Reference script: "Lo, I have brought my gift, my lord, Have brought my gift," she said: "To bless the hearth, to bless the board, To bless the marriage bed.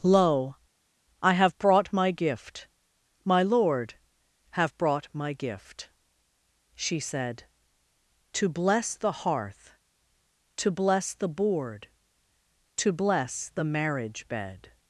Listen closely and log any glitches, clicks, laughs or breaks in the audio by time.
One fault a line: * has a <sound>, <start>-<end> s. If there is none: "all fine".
all fine